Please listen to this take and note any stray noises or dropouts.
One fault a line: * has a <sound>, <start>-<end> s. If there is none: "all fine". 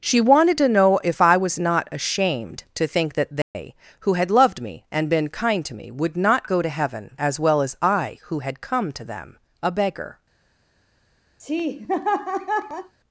* has a dropout, 3.4-3.6 s
* has a laugh, 11.4-12.9 s